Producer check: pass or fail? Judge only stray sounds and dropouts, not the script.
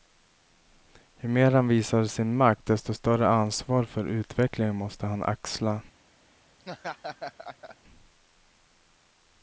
fail